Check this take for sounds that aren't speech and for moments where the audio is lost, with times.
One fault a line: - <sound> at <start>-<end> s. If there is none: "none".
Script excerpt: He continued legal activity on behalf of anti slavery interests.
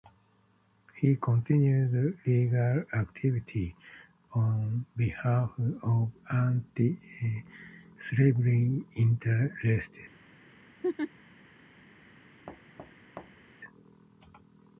- laugh at 10.8-11.1 s
- thud at 12.5-13.5 s